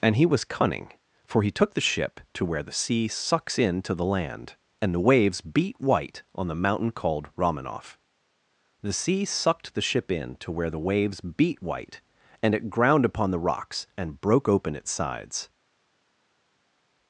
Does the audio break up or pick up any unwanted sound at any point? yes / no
no